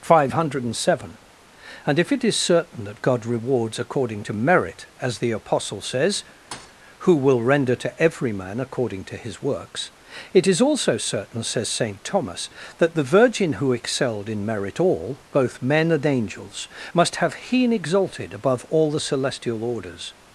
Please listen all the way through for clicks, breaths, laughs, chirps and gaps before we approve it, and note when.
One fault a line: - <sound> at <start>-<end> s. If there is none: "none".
- thud at 6.5-6.8 s